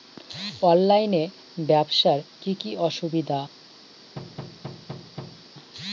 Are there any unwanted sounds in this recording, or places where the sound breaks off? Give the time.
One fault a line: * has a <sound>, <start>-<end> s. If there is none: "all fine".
* has a thud, 4.2-5.5 s